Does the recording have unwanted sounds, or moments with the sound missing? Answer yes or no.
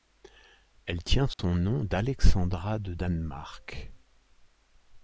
yes